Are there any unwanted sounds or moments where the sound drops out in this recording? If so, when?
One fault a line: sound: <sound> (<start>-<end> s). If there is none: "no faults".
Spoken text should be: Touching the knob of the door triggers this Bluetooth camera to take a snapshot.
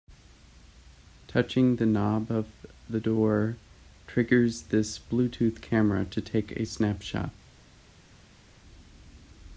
no faults